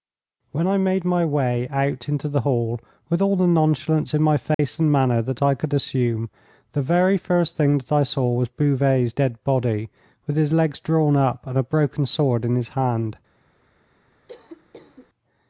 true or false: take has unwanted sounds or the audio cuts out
true